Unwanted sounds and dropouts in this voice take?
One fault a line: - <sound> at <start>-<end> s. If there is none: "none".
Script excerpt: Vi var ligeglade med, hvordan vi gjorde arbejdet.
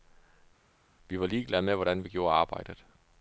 none